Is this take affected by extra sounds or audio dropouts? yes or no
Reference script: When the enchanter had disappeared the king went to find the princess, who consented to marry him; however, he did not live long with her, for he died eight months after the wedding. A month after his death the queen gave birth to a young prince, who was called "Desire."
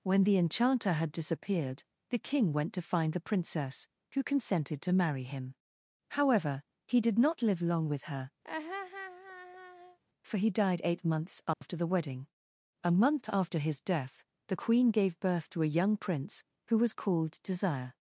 yes